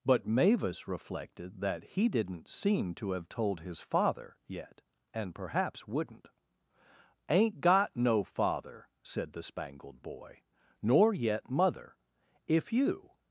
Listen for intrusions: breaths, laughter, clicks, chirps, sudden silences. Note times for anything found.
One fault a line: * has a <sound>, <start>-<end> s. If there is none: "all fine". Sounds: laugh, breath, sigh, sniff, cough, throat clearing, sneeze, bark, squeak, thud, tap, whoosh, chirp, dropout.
all fine